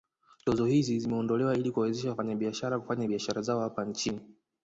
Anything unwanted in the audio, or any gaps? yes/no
no